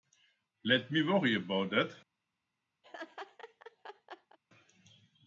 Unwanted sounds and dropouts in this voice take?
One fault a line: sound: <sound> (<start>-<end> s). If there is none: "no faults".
sound: laugh (2.8-4.4 s)